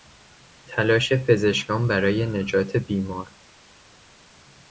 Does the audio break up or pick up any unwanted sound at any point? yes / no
no